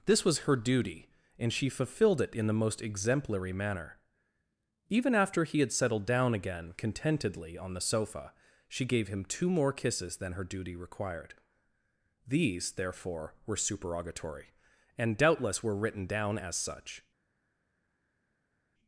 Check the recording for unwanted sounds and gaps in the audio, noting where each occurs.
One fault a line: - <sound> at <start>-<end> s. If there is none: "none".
none